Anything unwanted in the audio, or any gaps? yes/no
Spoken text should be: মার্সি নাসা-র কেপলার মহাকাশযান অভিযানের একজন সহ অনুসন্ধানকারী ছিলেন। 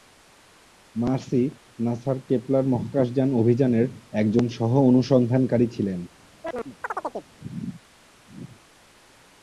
yes